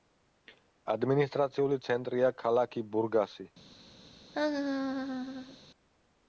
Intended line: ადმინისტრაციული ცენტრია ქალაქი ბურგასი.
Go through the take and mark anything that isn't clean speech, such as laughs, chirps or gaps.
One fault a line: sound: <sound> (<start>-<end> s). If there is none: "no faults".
sound: laugh (4.3-5.6 s)